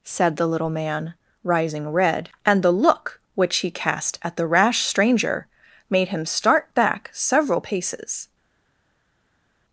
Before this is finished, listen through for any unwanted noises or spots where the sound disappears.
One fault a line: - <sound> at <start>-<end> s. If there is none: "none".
none